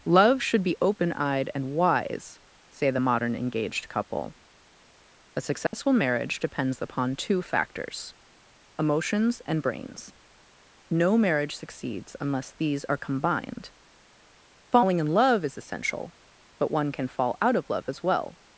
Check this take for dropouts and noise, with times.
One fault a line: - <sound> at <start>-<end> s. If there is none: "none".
- dropout at 5.7-5.7 s